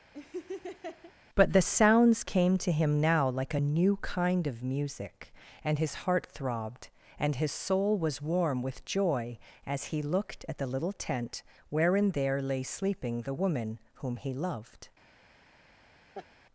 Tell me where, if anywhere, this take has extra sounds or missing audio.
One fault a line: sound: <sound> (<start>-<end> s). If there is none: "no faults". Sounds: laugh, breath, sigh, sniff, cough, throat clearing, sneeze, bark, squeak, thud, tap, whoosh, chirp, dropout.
sound: laugh (0.1-1.1 s)
sound: laugh (16.1-16.3 s)